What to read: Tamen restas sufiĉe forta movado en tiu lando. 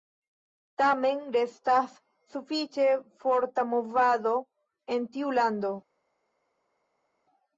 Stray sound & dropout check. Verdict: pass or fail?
pass